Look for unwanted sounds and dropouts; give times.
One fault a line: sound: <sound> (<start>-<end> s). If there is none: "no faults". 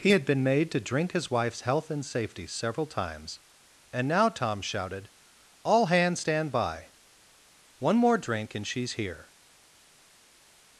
no faults